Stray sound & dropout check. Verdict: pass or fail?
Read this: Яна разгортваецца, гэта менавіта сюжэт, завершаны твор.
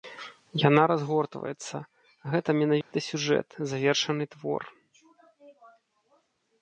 fail